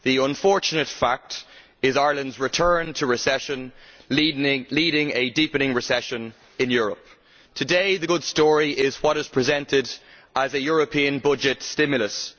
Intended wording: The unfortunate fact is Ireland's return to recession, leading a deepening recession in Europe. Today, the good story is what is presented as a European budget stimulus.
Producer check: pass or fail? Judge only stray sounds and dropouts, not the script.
pass